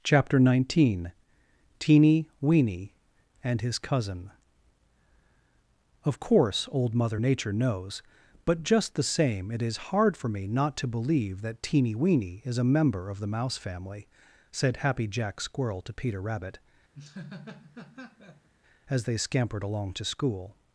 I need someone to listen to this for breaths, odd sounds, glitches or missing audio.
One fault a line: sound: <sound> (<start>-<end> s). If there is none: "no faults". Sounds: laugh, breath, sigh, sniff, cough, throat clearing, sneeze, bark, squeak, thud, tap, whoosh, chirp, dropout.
sound: laugh (16.9-18.5 s)